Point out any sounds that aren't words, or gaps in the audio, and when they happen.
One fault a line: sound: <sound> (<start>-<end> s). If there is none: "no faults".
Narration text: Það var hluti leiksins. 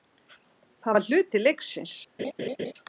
sound: laugh (2.2-2.7 s)